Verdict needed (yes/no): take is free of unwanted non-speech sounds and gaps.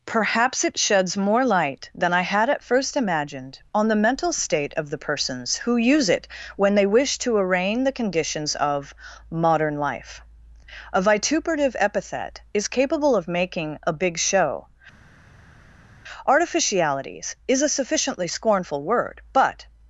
yes